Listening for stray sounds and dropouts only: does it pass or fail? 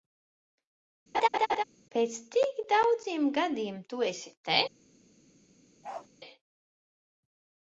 fail